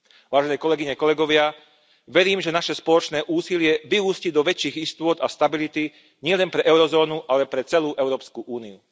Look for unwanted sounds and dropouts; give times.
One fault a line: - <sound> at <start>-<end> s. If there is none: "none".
none